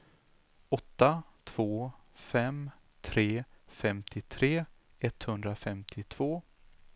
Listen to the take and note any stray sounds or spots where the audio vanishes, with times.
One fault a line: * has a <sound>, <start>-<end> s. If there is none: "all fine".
all fine